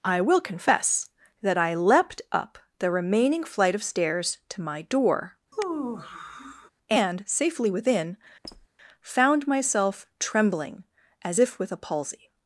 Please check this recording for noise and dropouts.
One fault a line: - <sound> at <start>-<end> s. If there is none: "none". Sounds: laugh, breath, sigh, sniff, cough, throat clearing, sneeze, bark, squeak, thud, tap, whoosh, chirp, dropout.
- sigh at 5.5-6.7 s
- squeak at 8.4-8.7 s